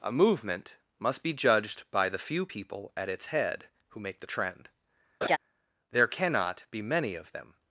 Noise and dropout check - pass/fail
fail